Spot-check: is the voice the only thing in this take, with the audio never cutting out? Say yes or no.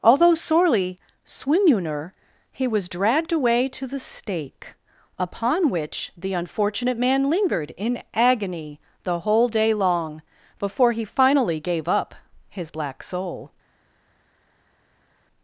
yes